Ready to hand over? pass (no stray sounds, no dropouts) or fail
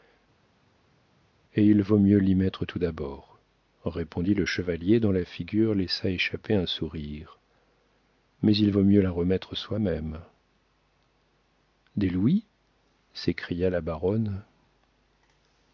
pass